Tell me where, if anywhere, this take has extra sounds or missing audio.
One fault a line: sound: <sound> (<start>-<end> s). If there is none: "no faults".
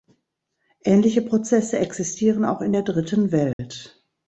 sound: dropout (3.5-3.6 s)